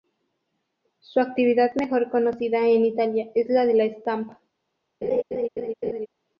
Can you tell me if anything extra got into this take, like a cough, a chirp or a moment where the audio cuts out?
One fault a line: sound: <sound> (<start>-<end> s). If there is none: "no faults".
sound: laugh (5.0-6.1 s)